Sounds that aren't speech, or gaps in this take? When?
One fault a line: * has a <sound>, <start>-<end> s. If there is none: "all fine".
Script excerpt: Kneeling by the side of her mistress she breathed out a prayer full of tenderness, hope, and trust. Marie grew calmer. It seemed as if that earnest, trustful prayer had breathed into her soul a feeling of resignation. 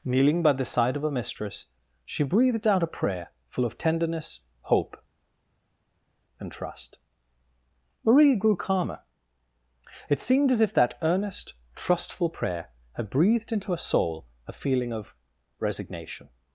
all fine